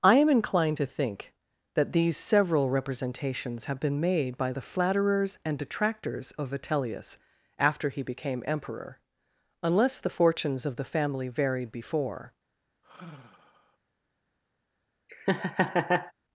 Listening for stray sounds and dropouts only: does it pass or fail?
fail